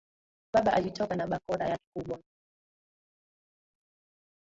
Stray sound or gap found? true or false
false